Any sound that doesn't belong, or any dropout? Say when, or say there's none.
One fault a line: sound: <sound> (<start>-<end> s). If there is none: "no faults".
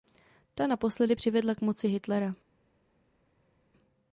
no faults